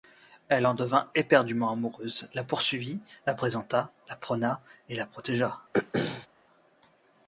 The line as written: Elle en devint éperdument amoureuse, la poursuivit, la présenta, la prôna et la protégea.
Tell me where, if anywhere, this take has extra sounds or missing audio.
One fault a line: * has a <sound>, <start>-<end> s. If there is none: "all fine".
* has a throat clearing, 5.7-6.3 s